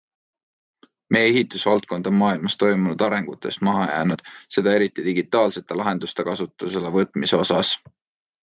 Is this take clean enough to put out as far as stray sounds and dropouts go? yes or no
yes